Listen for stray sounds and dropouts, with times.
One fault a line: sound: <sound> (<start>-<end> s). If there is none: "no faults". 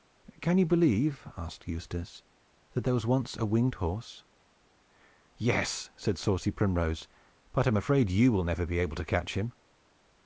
no faults